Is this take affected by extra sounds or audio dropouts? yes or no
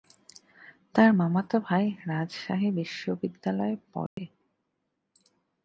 yes